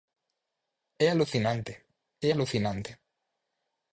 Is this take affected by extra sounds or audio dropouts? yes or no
no